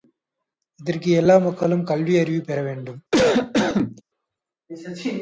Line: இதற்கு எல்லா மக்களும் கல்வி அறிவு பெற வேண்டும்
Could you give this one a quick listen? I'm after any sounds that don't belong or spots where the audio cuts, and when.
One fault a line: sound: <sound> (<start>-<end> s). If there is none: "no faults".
sound: cough (3.1-4.0 s)